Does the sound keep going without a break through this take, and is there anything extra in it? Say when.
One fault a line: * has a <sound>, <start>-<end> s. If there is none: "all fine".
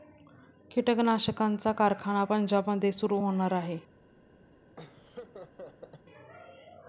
* has a laugh, 4.8-6.0 s